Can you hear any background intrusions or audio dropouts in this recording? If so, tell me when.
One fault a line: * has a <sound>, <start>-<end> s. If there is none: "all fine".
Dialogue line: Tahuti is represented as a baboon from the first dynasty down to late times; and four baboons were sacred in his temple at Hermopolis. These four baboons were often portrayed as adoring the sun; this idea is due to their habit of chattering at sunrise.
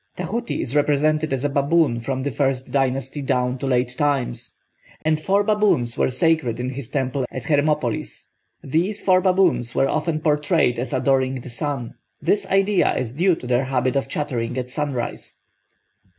* has a dropout, 5.0-5.1 s